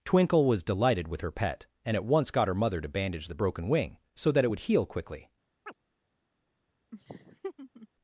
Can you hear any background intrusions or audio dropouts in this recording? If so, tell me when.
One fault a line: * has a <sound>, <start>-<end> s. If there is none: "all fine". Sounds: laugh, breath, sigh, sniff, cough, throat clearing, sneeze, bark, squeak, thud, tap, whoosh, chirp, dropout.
* has a chirp, 5.7-5.8 s
* has a laugh, 6.9-7.9 s